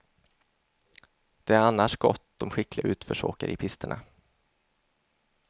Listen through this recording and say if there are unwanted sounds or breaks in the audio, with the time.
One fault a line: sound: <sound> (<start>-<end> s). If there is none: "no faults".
no faults